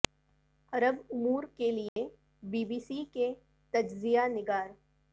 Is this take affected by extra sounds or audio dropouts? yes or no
yes